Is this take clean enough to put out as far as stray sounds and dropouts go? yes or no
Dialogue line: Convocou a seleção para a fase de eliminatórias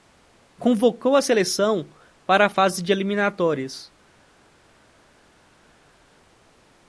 yes